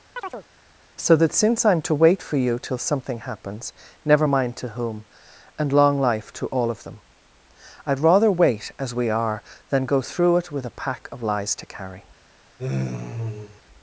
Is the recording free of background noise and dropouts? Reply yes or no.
no